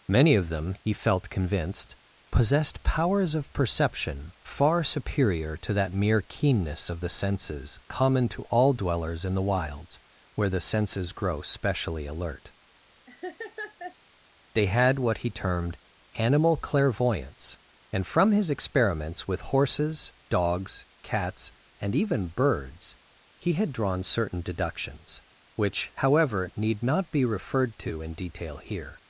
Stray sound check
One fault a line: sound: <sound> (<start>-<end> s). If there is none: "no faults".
sound: laugh (13.1-14.0 s)